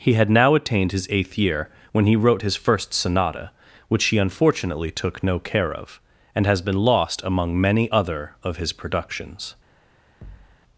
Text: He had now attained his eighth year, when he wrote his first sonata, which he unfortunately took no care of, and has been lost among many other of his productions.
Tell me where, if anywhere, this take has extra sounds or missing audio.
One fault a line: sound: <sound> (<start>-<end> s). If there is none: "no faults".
sound: thud (10.2-10.6 s)